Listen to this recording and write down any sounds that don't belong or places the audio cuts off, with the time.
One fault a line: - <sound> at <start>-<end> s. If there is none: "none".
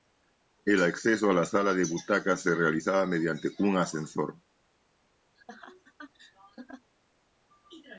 - laugh at 5.4-6.9 s